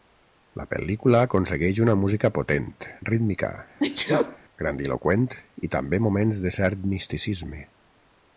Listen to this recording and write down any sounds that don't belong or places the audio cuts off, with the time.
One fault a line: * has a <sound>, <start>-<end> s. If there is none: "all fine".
* has a sneeze, 3.8-4.4 s